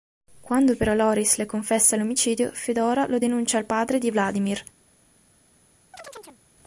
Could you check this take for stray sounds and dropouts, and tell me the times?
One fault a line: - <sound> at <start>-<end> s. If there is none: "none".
- chirp at 5.9-6.4 s